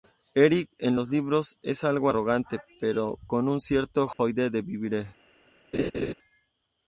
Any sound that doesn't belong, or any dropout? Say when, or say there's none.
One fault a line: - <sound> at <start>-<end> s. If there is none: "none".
- dropout at 4.1-4.2 s
- laugh at 5.7-6.1 s